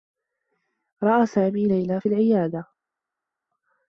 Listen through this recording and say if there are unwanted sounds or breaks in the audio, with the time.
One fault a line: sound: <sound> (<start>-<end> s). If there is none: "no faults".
no faults